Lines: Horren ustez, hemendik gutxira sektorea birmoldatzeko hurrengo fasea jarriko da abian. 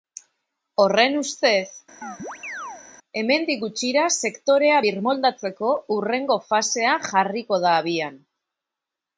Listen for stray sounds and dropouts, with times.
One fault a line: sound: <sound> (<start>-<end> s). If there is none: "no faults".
sound: chirp (2.0-2.8 s)